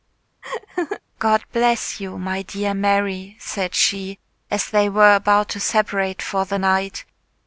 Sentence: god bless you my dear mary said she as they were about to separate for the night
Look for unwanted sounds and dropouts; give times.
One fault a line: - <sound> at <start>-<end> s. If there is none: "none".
- laugh at 0.4-1.0 s